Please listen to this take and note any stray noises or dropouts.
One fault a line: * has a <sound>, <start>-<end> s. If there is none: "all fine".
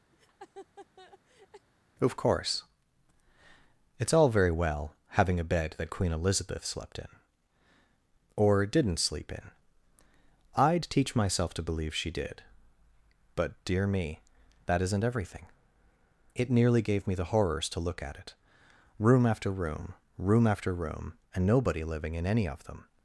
* has a laugh, 0.1-1.7 s